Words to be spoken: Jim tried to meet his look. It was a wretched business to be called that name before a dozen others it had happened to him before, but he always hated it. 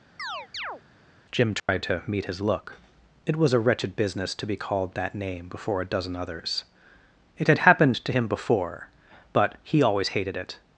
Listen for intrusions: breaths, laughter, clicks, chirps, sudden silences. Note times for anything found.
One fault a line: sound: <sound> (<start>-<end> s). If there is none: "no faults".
sound: chirp (0.2-0.8 s)
sound: dropout (1.6-1.7 s)